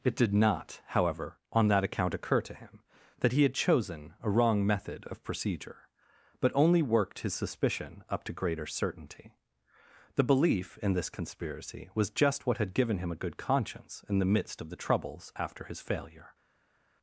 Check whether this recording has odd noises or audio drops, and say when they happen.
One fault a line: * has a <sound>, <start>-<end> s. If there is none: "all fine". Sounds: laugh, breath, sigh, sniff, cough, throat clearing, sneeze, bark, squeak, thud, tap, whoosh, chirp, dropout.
all fine